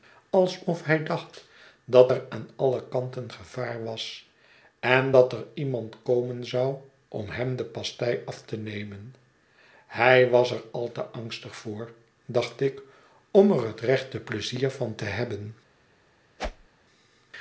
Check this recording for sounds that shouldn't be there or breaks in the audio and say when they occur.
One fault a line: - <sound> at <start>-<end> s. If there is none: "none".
- whoosh at 16.4-16.7 s